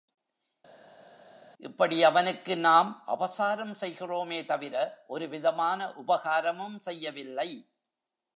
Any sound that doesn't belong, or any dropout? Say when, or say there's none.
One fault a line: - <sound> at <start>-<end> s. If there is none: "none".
none